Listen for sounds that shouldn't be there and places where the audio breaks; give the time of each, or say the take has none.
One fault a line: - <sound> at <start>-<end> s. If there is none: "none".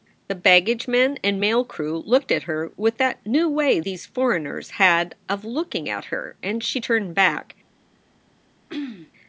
- throat clearing at 8.7-9.1 s